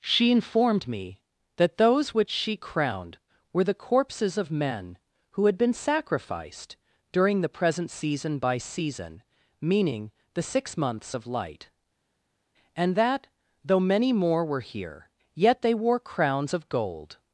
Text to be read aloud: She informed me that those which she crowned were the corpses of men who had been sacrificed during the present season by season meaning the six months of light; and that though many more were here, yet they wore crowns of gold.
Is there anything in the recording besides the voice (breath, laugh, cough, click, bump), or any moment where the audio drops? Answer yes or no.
no